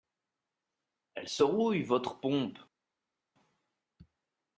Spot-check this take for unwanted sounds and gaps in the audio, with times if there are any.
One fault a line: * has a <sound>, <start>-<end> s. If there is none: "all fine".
all fine